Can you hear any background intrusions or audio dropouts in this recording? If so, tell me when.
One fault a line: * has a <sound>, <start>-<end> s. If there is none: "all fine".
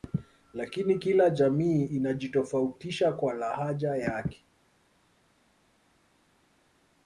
all fine